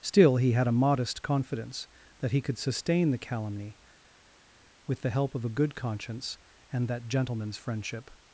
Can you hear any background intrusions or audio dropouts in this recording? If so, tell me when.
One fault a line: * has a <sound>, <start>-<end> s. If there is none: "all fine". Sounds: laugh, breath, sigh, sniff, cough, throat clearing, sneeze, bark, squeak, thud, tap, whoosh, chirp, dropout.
all fine